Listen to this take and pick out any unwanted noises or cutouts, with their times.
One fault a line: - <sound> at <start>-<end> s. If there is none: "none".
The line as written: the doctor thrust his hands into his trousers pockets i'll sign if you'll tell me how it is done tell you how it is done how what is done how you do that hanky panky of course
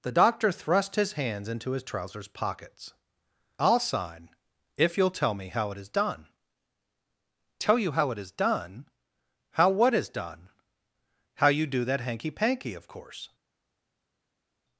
none